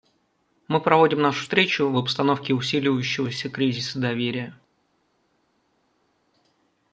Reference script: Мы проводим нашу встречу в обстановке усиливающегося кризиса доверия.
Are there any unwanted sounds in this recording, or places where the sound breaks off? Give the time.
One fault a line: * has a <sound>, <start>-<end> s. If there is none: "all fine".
all fine